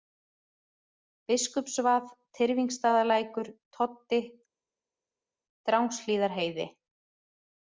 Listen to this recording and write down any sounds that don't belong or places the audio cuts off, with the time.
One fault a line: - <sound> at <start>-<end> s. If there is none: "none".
none